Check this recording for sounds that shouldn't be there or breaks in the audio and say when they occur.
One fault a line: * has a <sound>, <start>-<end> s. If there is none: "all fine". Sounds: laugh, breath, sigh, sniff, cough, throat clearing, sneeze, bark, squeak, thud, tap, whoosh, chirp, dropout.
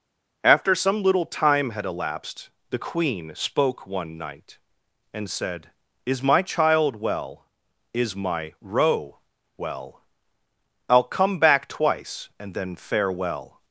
all fine